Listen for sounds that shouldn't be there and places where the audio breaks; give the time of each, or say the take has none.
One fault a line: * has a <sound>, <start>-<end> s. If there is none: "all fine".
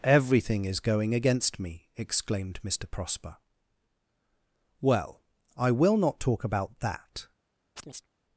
* has a chirp, 7.8-8.1 s